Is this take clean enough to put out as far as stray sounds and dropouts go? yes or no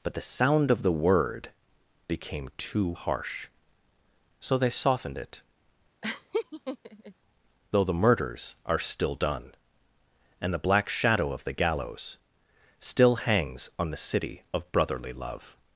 no